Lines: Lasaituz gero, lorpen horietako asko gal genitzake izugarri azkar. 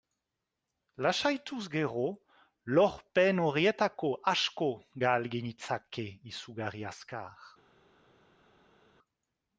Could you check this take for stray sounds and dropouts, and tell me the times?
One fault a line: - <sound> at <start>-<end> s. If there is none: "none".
none